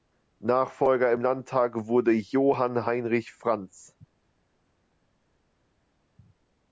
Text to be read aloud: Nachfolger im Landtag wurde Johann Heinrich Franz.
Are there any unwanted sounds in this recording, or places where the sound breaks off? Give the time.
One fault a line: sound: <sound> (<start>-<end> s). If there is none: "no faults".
no faults